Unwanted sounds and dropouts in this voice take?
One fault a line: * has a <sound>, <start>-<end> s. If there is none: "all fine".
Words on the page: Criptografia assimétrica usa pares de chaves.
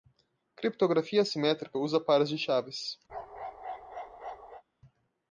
* has a bark, 3.1-4.6 s